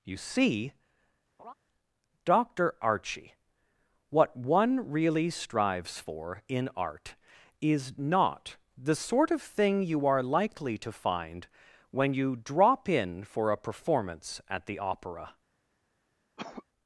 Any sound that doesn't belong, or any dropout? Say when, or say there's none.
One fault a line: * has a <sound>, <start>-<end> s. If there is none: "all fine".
* has a laugh, 1.4-1.5 s
* has a cough, 16.4-16.6 s